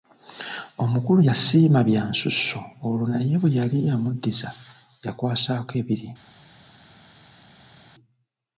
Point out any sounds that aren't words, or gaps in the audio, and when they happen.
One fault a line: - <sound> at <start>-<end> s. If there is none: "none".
none